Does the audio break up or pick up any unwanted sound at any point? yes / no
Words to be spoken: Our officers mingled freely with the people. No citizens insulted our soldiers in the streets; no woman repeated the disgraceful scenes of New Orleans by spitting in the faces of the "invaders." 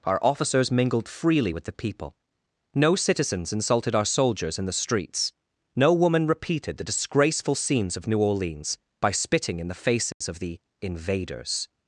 yes